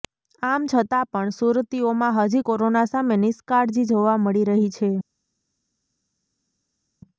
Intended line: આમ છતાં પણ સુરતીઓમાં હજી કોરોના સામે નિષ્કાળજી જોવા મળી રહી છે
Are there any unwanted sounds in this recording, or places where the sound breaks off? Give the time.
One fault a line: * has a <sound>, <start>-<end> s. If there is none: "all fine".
all fine